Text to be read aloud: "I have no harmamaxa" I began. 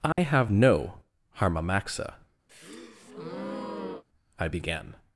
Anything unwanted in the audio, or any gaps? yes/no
yes